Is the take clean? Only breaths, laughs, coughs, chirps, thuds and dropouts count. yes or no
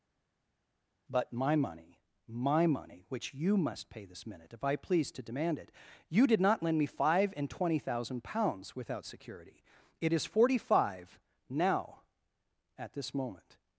yes